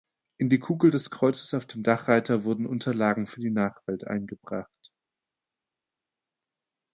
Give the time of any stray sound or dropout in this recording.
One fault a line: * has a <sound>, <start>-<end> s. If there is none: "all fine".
all fine